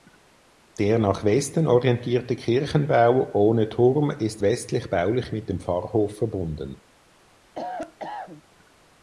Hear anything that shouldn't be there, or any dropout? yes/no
yes